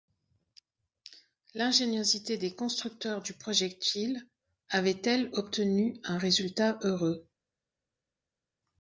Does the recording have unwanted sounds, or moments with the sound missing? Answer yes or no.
no